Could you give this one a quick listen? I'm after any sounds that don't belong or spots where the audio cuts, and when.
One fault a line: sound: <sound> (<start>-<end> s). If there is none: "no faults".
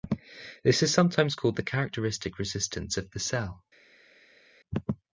no faults